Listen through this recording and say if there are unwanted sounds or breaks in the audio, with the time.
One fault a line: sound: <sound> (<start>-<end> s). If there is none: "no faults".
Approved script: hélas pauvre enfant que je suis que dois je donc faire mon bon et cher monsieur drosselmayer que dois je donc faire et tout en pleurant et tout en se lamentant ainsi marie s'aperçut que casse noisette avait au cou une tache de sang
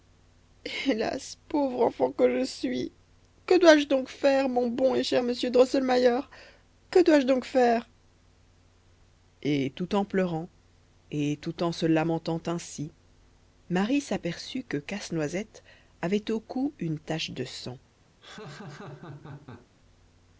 sound: laugh (18.2-19.7 s)